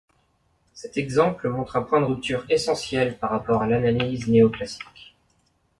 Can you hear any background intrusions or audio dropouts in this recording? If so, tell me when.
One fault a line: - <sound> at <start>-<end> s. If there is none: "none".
none